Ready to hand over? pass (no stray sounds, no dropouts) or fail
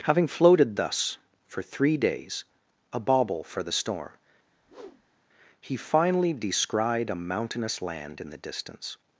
fail